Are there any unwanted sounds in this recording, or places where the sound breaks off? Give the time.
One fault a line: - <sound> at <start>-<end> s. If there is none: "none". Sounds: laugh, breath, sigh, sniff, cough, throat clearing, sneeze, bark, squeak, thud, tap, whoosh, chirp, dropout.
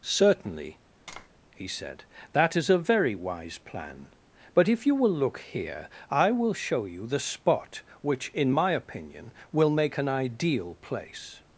- tap at 1.1-1.3 s